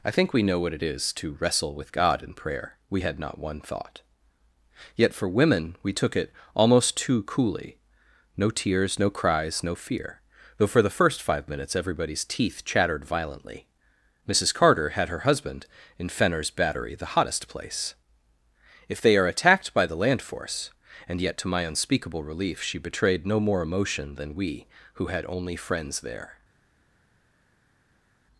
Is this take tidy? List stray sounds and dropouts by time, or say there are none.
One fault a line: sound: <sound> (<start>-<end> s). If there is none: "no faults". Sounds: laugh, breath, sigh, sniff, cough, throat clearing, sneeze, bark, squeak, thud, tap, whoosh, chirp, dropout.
no faults